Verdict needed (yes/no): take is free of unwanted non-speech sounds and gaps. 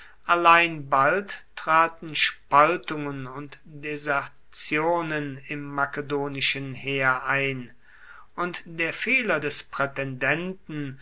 yes